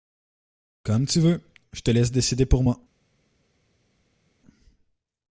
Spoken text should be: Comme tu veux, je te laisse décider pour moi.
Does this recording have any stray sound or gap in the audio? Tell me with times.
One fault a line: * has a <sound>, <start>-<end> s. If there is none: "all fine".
all fine